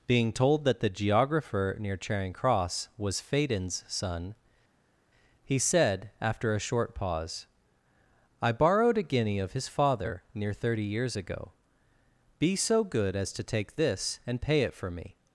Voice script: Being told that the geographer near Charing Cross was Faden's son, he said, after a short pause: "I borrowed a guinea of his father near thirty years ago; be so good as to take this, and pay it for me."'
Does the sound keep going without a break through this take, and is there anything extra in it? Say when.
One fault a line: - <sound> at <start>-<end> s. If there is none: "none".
none